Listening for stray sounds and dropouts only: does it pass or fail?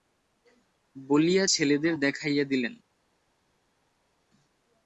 pass